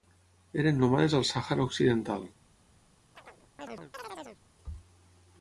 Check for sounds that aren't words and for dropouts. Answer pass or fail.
fail